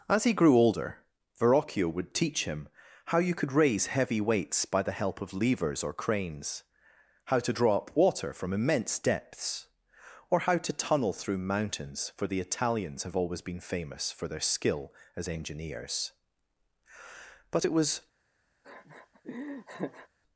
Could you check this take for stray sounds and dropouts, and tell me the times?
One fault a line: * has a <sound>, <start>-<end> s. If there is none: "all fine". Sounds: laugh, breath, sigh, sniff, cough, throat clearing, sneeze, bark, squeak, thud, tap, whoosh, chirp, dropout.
* has a laugh, 18.6-20.1 s